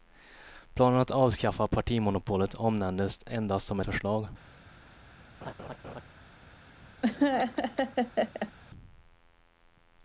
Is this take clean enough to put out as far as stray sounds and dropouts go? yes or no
no